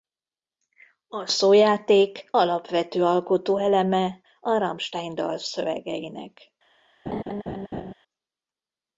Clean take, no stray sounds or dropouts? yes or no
no